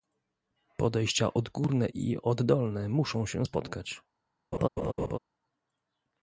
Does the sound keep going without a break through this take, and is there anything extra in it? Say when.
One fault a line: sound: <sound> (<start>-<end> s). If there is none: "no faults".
sound: laugh (4.5-5.2 s)